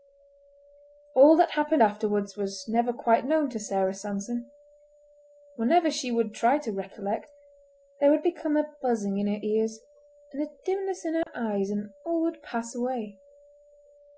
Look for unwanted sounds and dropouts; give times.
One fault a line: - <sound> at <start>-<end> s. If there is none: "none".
- dropout at 11.2-11.3 s